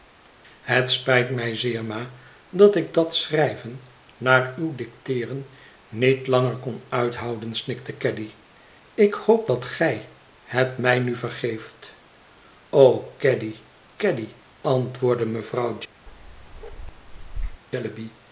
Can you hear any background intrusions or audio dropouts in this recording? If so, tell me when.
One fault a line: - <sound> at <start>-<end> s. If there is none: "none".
- bark at 16.1-17.6 s